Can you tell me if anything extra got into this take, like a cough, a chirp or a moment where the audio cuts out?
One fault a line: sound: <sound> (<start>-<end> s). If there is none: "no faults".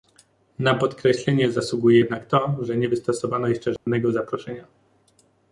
sound: dropout (3.8-3.9 s)